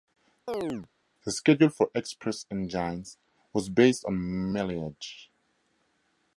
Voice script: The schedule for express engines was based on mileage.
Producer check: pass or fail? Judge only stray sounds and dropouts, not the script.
fail